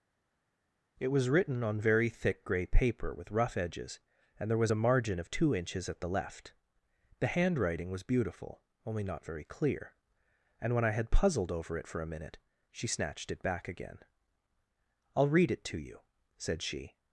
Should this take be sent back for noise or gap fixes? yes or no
no